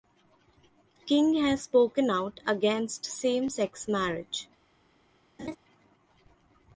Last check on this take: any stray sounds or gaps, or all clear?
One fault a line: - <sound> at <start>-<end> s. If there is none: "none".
- laugh at 5.4-5.6 s